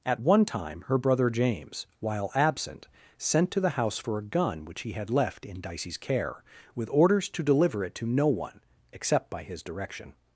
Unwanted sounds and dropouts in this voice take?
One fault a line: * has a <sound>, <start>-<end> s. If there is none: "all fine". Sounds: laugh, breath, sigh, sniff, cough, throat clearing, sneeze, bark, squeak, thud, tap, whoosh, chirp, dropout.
all fine